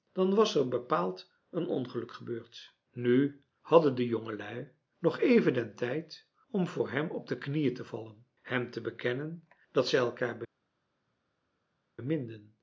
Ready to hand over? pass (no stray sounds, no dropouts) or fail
pass